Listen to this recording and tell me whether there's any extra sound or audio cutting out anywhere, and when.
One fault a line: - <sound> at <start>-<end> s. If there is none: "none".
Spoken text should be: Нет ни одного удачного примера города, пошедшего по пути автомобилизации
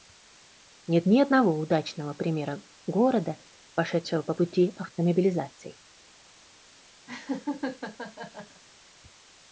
- laugh at 7.1-8.6 s